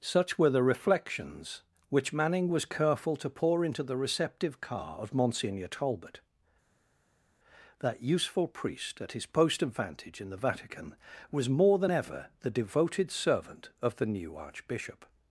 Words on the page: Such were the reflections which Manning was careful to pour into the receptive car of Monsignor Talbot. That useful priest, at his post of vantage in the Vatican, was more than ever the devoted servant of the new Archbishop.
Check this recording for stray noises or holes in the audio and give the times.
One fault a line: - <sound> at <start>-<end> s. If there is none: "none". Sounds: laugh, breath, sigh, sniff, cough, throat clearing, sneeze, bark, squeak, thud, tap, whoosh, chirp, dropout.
none